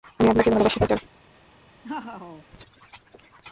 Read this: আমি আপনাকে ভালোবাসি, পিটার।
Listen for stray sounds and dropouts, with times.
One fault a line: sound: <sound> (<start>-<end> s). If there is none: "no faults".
sound: laugh (1.8-2.5 s)